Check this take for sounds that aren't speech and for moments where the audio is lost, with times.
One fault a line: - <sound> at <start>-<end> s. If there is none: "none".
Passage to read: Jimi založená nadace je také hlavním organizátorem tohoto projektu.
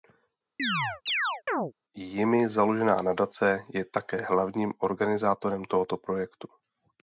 - chirp at 0.6-1.7 s